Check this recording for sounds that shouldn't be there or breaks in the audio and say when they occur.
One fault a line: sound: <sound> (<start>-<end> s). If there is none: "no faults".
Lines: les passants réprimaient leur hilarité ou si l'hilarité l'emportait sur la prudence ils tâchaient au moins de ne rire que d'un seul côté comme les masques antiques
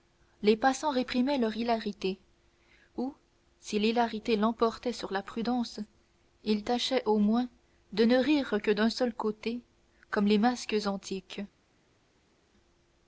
no faults